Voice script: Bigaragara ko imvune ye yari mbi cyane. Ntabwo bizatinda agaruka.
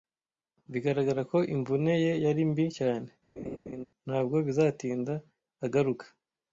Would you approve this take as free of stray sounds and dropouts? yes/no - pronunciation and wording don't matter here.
no